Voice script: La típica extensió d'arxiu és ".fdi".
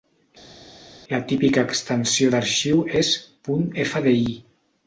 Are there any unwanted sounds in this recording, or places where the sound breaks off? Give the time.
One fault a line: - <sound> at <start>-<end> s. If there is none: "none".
none